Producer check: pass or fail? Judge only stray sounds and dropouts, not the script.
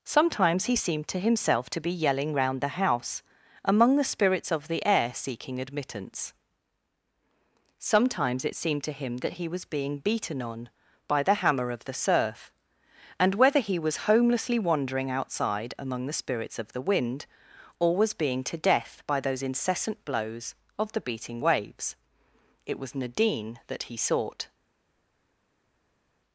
pass